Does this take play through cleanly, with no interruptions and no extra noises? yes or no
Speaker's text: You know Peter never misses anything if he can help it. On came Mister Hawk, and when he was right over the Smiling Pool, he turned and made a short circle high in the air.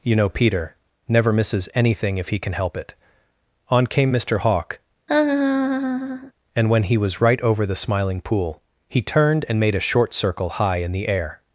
no